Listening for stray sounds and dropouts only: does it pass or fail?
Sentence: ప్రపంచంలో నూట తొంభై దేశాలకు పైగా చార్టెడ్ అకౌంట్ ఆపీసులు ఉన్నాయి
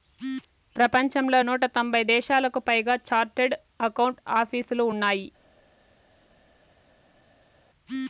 pass